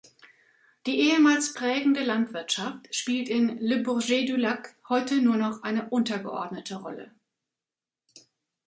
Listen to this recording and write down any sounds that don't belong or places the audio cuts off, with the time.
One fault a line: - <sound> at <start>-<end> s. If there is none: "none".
none